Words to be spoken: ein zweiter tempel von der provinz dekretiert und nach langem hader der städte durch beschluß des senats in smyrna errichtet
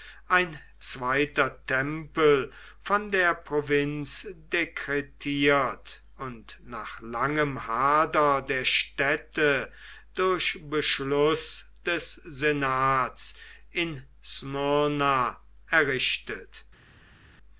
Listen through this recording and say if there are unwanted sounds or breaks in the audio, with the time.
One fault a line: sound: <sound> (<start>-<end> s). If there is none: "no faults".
no faults